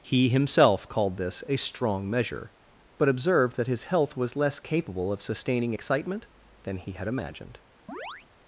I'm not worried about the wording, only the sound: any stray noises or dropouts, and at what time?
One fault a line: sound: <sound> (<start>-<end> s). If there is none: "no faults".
sound: chirp (7.9-8.3 s)